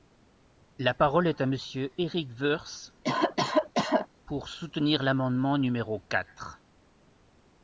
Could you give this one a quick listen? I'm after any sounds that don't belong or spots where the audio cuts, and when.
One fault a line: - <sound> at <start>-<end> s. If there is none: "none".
- cough at 3.0-4.1 s